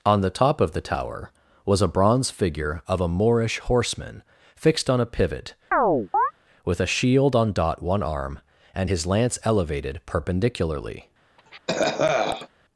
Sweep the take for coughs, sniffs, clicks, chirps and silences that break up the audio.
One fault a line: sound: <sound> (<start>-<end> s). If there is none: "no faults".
sound: chirp (5.7-6.3 s)
sound: cough (11.4-12.5 s)